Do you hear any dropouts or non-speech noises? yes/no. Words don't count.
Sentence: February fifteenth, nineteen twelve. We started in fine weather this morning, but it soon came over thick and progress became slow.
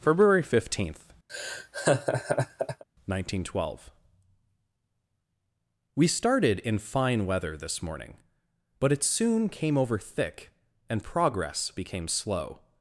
yes